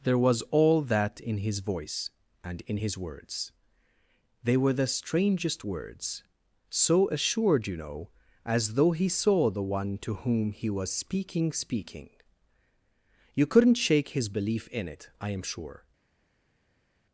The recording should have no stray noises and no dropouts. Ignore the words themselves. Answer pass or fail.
pass